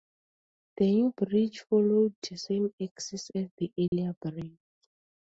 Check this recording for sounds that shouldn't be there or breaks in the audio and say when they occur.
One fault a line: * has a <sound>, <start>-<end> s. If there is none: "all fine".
* has a dropout, 3.9-3.9 s